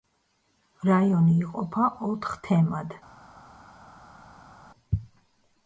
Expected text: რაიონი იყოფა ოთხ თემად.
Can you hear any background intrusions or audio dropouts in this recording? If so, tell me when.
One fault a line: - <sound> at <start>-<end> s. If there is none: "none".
none